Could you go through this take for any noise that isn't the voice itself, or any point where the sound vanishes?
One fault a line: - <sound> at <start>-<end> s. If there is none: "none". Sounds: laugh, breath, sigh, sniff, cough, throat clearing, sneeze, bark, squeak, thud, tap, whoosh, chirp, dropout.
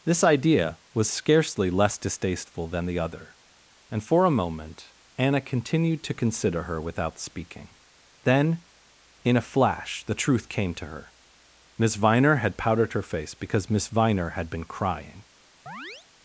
- chirp at 15.7-16.1 s